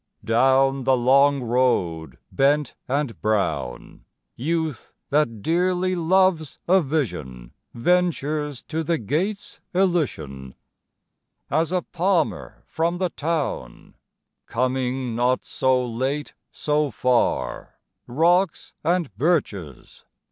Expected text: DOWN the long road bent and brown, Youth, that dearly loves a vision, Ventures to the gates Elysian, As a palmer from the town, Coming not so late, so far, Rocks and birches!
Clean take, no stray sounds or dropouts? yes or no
yes